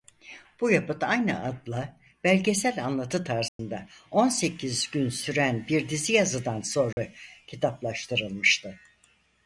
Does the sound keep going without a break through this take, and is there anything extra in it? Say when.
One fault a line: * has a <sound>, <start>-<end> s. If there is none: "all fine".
* has a dropout, 3.5-3.6 s
* has a dropout, 6.9-7.0 s